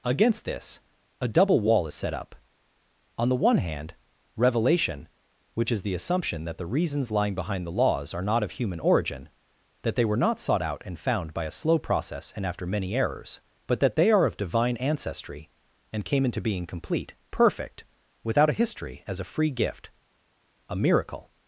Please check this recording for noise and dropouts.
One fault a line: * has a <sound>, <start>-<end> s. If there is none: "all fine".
all fine